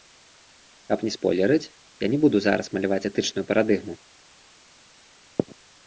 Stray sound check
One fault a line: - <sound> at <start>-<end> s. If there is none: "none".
none